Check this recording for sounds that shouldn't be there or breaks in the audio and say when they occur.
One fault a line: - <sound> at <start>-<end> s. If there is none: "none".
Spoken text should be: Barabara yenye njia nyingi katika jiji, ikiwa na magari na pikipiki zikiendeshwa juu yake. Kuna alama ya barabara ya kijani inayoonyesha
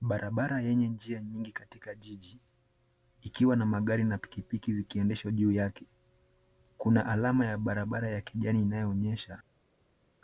none